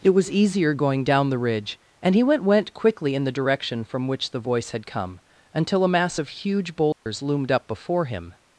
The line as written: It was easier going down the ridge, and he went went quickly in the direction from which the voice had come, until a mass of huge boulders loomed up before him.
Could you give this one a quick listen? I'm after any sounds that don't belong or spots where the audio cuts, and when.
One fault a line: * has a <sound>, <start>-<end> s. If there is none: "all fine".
* has a dropout, 6.9-7.1 s